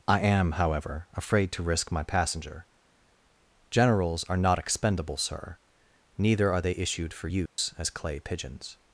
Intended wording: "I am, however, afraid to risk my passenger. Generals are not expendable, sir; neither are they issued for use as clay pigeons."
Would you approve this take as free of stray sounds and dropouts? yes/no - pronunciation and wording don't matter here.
no